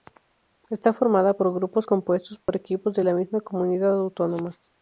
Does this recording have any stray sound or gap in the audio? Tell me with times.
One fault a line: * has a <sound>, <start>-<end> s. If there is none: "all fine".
* has a dropout, 2.4-2.5 s